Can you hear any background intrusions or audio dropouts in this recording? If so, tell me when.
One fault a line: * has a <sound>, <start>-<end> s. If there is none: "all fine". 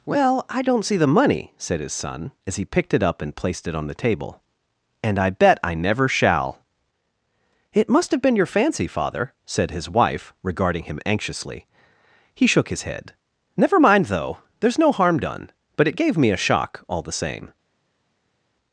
all fine